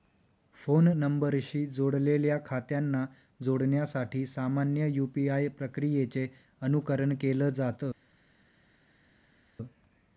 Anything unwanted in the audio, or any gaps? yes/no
no